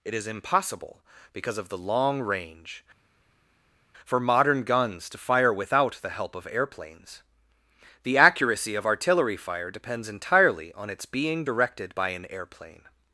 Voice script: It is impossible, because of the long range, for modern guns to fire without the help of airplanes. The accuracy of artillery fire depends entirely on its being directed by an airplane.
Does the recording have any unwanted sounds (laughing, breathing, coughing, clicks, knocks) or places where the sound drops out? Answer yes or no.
no